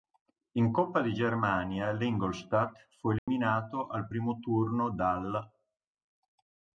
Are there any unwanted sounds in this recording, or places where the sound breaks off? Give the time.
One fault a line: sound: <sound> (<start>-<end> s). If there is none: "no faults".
sound: dropout (3.2-3.3 s)